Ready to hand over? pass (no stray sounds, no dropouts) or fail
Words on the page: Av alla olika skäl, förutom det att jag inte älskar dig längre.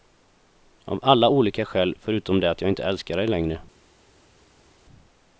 pass